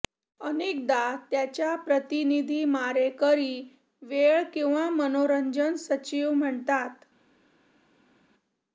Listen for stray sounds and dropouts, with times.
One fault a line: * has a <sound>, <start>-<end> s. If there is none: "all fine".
all fine